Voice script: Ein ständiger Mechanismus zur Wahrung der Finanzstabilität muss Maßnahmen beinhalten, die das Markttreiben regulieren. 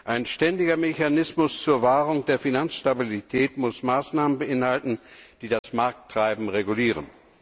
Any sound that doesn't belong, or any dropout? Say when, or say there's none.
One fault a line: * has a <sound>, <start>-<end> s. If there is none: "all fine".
* has a dropout, 5.6-5.6 s